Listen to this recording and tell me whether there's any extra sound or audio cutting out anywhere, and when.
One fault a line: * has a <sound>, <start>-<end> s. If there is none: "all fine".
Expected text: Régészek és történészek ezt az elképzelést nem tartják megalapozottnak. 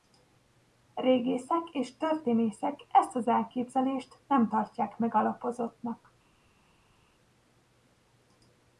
all fine